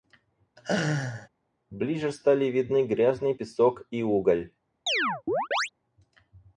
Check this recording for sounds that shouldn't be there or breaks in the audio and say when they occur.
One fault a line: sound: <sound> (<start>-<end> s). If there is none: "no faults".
sound: laugh (0.6-1.3 s)
sound: chirp (4.9-5.7 s)